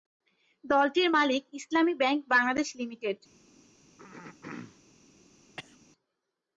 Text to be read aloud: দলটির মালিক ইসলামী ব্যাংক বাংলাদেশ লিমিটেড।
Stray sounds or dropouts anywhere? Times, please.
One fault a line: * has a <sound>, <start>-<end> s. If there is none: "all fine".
* has a throat clearing, 4.0-4.8 s
* has a cough, 5.6-5.8 s